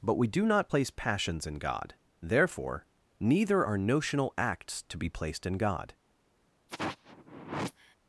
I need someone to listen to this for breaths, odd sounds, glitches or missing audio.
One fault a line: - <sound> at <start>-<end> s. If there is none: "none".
- sigh at 6.7-8.0 s